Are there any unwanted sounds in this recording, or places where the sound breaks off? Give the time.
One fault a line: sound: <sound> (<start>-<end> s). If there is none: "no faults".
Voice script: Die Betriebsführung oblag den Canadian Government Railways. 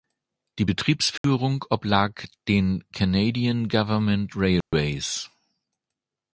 sound: dropout (1.2-1.2 s)
sound: dropout (4.6-4.7 s)